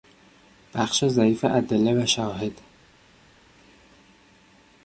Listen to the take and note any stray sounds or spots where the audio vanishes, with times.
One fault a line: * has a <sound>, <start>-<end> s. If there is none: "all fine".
all fine